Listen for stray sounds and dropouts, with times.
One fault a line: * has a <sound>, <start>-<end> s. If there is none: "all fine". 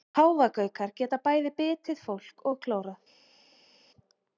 all fine